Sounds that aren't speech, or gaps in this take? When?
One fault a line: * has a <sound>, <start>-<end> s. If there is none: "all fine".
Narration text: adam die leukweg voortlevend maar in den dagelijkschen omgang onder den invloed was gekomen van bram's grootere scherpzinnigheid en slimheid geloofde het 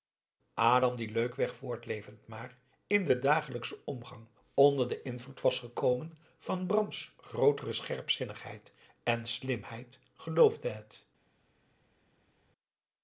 all fine